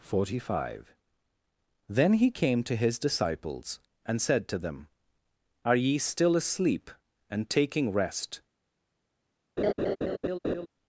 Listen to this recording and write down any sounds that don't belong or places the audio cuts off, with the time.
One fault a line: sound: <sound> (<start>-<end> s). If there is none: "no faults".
sound: laugh (9.6-10.7 s)